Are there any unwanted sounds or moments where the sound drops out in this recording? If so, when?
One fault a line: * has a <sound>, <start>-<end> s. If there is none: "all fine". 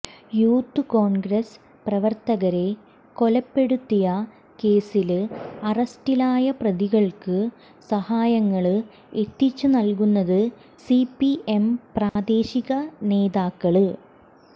* has a dropout, 12.1-12.2 s